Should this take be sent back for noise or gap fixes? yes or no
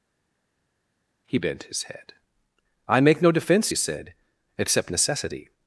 no